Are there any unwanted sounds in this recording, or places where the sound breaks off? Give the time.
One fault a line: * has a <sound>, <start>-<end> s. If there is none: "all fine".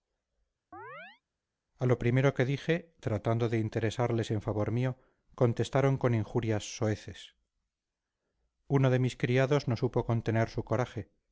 * has a chirp, 0.7-1.2 s